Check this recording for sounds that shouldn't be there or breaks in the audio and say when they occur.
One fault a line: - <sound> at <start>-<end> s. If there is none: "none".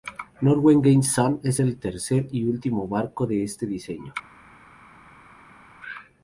none